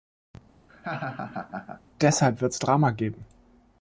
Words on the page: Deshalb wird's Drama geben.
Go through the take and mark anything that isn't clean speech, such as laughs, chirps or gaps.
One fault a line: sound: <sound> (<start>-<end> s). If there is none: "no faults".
sound: laugh (0.7-1.8 s)